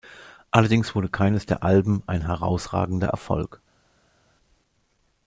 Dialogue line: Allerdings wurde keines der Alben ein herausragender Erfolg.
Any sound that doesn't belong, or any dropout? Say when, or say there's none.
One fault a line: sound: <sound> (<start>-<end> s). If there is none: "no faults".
no faults